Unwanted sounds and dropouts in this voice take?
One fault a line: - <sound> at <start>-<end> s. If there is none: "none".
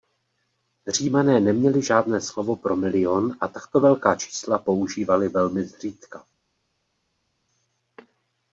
none